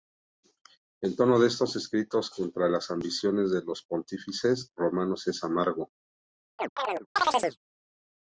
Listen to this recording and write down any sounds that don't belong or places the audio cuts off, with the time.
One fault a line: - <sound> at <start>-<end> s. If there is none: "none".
- chirp at 6.6-7.6 s